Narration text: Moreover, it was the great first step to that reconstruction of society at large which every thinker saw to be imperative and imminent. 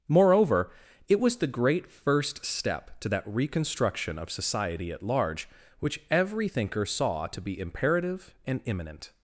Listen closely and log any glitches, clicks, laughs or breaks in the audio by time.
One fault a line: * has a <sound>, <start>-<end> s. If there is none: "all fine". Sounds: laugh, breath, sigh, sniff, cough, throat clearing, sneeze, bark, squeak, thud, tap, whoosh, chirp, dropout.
all fine